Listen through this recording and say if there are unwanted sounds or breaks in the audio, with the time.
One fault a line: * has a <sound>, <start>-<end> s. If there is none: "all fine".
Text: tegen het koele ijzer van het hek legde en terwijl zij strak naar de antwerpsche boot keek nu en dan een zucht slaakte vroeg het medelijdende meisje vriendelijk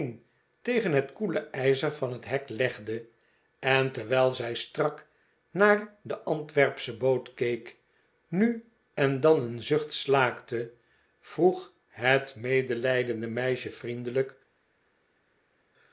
all fine